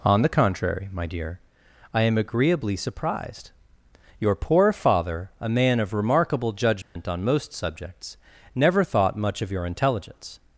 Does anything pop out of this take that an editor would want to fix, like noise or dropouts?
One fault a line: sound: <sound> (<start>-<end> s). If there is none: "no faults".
sound: dropout (6.8-7.0 s)